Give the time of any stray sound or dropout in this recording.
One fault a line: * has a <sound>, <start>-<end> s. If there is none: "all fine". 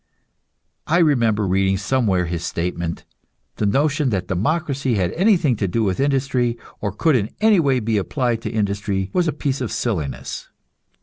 all fine